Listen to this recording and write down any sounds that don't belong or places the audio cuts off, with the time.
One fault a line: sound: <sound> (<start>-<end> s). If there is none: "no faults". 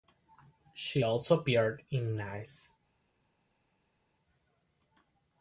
no faults